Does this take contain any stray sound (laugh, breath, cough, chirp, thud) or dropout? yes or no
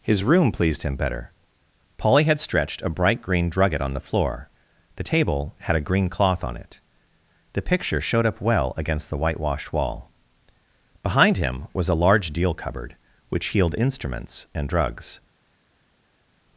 no